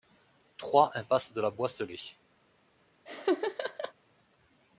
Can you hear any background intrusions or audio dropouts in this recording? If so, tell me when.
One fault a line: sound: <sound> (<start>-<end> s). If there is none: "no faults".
sound: laugh (3.1-3.9 s)